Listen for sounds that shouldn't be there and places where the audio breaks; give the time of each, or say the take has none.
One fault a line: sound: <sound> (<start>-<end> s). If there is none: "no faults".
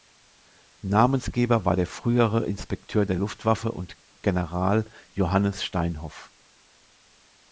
no faults